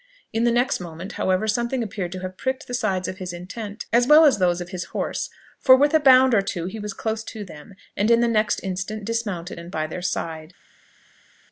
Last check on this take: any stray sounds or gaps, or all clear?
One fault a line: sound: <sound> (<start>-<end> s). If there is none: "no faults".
no faults